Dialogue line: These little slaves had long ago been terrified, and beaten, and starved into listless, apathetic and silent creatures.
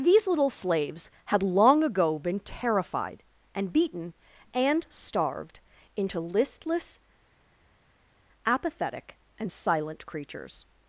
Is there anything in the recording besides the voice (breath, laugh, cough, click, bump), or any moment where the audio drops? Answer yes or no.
no